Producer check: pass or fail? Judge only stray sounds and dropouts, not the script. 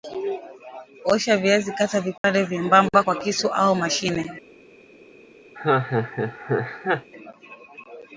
fail